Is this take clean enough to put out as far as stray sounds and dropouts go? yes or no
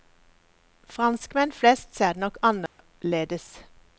no